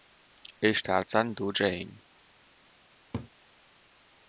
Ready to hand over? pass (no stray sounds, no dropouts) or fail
fail